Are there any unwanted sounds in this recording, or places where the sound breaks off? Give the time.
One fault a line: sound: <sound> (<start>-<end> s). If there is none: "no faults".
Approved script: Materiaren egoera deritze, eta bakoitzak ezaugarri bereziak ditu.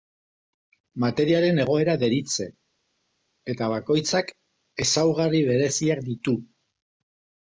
no faults